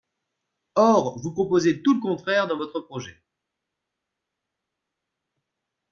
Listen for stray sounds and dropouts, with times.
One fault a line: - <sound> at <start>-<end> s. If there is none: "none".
none